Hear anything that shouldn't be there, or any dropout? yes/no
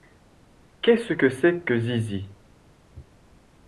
no